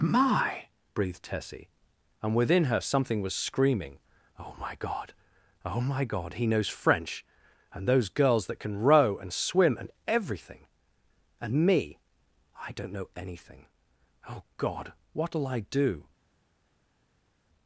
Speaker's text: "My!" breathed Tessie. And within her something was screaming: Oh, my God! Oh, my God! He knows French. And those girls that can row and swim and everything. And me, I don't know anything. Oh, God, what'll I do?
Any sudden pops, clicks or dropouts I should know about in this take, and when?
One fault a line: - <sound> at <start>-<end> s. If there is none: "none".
none